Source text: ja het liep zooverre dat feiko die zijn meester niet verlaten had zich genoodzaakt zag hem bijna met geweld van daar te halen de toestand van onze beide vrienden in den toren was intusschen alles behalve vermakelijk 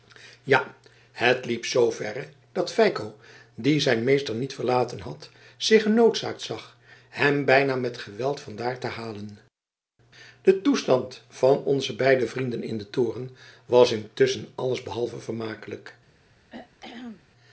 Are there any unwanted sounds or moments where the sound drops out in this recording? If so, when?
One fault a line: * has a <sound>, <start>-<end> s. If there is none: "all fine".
* has a throat clearing, 16.5-17.3 s